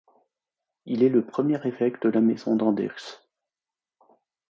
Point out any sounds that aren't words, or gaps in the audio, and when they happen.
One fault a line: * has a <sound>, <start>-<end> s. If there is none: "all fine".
all fine